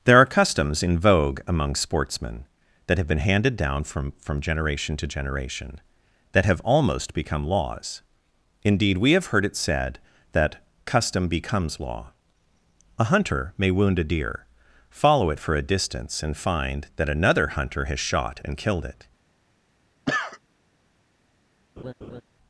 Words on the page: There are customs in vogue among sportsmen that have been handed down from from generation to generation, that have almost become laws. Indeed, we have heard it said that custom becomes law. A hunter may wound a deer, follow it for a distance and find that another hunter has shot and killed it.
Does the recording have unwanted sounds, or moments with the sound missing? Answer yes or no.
yes